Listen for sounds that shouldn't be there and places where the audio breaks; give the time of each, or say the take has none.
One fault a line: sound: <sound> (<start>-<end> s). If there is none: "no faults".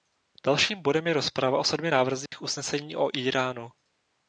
sound: dropout (2.3-2.3 s)